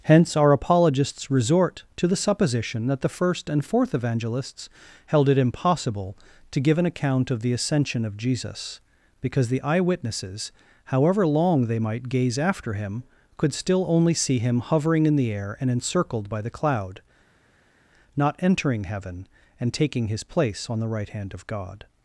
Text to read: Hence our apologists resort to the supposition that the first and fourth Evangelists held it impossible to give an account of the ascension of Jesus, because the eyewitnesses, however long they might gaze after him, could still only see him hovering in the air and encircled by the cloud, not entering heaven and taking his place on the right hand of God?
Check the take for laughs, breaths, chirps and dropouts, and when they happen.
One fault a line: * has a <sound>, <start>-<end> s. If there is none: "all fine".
all fine